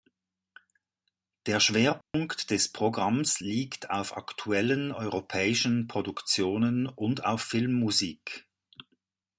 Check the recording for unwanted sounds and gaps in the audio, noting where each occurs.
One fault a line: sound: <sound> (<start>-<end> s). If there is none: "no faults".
sound: dropout (2.0-2.1 s)